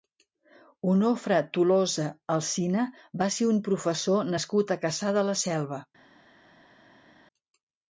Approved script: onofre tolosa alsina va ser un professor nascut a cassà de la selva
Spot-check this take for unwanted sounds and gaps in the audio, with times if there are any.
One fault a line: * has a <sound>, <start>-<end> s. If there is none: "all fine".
all fine